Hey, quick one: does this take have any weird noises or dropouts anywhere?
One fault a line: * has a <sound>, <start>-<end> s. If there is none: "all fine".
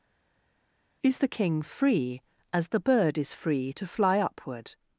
all fine